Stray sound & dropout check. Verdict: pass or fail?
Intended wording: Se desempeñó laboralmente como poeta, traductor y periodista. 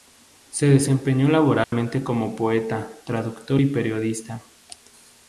fail